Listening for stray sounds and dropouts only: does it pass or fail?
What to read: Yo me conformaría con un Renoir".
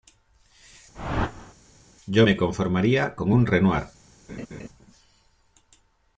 fail